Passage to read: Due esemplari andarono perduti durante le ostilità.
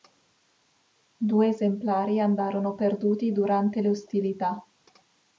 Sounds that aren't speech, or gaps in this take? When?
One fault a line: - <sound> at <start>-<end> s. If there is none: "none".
none